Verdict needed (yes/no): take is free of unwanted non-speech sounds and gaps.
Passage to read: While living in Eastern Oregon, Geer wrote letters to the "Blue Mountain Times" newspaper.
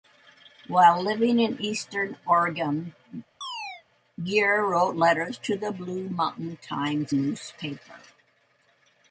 no